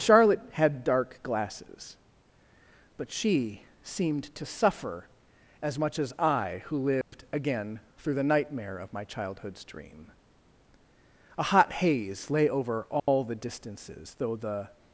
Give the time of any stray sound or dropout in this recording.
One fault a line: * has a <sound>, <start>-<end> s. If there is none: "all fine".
* has a dropout, 7.0-7.1 s
* has a dropout, 13.0-13.1 s